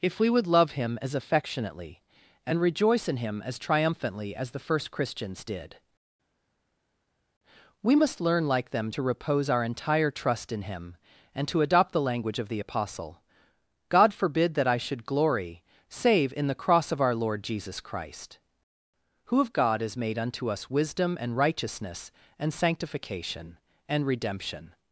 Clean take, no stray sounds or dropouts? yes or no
yes